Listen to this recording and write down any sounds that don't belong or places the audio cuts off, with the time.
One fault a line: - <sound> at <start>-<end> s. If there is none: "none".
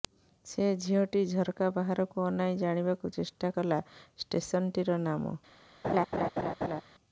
- laugh at 5.8-6.8 s